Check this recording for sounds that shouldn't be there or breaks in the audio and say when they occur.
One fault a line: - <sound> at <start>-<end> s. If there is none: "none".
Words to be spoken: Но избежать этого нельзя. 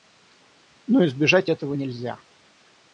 none